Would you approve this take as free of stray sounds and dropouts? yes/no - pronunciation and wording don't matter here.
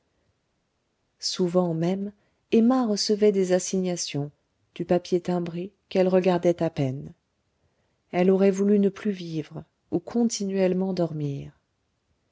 yes